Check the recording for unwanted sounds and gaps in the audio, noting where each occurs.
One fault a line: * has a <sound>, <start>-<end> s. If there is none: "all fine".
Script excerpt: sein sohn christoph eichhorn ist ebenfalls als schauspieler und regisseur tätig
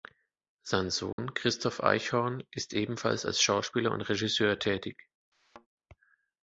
* has a dropout, 1.1-1.2 s
* has a thud, 5.3-5.7 s